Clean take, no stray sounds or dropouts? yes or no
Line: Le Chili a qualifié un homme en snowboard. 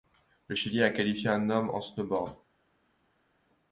yes